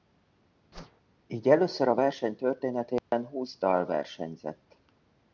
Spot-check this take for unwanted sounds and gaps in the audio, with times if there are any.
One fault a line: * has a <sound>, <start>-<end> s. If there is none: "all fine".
* has a whoosh, 0.7-1.0 s
* has a dropout, 3.0-3.1 s